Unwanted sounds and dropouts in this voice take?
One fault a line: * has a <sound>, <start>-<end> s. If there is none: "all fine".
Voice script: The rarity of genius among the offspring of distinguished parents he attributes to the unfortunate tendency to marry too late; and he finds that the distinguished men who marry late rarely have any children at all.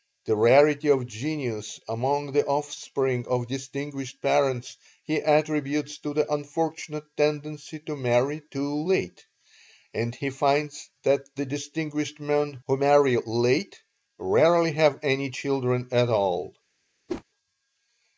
* has a whoosh, 17.1-17.2 s